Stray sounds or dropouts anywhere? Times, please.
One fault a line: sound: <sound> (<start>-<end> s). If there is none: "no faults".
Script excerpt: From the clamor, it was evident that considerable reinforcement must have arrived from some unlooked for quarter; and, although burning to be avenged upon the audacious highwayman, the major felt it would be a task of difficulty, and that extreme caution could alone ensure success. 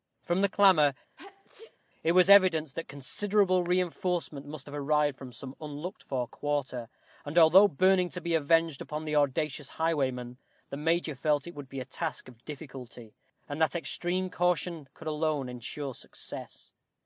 sound: sneeze (1.2-1.8 s)